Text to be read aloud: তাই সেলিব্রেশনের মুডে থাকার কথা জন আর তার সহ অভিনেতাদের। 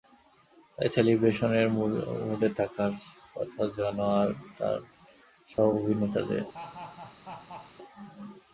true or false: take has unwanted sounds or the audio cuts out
true